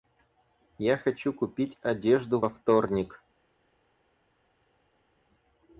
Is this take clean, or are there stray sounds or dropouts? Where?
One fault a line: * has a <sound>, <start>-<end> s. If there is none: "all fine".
all fine